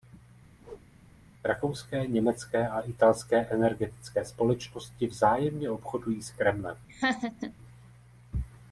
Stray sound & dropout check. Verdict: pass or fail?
fail